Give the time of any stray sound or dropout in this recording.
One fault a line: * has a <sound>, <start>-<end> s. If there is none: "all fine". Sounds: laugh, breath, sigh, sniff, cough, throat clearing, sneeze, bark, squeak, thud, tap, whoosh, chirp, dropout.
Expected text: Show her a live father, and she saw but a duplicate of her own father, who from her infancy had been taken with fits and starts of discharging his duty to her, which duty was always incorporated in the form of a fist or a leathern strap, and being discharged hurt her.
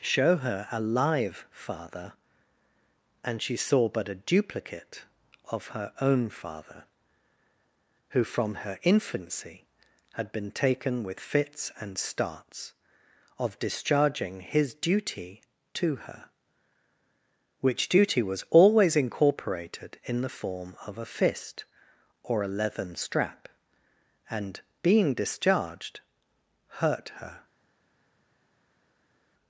all fine